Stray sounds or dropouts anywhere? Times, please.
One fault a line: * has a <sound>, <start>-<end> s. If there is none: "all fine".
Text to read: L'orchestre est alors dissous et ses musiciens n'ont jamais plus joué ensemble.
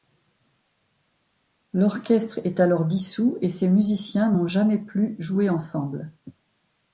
all fine